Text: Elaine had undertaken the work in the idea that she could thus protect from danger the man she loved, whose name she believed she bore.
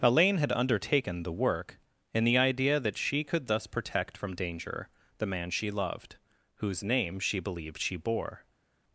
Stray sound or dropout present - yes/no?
no